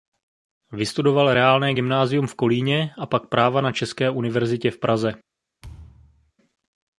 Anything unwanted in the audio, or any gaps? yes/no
yes